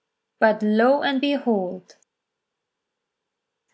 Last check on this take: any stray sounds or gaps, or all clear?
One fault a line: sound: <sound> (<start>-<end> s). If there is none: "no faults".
no faults